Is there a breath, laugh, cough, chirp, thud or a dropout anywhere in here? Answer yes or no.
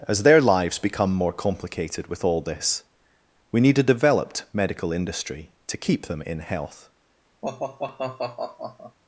yes